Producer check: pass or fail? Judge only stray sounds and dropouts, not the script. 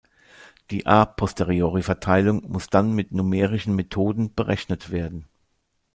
pass